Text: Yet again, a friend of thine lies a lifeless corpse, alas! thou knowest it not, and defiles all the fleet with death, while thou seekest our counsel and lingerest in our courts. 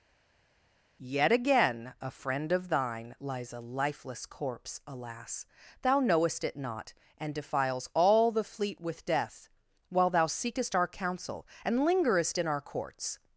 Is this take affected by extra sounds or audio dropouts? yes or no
no